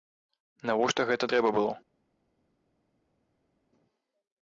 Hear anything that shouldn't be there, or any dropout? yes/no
no